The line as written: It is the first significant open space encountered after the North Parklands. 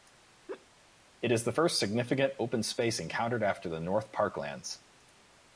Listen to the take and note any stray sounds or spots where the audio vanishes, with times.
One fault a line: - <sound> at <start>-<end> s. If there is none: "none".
- laugh at 0.5-0.7 s